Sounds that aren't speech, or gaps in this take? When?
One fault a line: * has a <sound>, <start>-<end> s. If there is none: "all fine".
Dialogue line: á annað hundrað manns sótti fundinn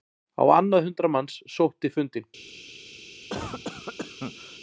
* has a cough, 3.3-4.6 s